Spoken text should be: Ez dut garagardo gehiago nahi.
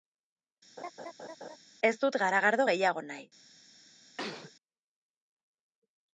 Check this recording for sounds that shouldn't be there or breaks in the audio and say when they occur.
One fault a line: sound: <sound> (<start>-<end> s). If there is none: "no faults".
sound: laugh (0.8-1.6 s)
sound: sneeze (4.2-4.5 s)